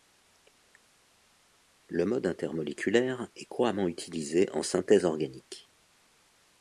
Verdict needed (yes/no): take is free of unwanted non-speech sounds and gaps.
yes